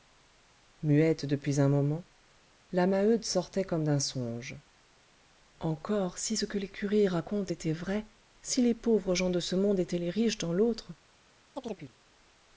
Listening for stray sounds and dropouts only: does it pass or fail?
fail